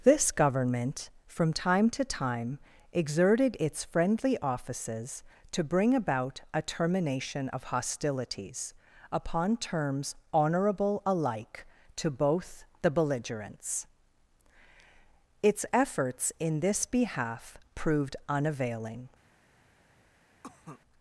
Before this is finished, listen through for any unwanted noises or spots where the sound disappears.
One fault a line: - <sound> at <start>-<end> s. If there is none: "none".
- cough at 20.4-20.8 s